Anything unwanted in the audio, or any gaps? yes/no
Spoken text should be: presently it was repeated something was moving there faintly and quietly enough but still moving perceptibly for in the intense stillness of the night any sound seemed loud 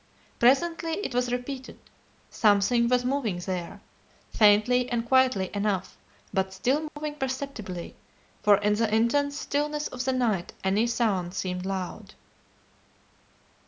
yes